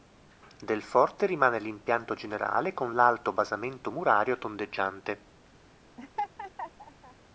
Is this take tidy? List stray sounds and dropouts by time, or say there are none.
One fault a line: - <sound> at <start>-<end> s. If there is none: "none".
- laugh at 6.0-7.2 s